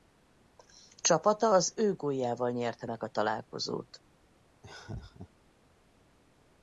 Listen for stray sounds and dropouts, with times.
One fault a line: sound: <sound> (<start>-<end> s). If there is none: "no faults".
sound: laugh (4.6-5.3 s)